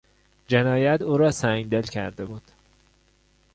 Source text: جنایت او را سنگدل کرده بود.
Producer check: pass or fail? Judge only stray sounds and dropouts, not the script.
pass